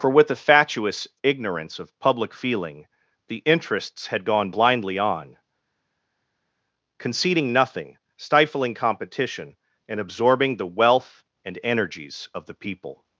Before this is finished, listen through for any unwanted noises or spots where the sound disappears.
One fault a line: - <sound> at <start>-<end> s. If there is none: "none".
none